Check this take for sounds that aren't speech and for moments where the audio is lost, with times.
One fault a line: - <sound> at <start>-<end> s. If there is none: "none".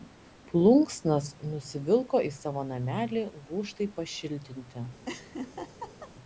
- laugh at 5.1-6.1 s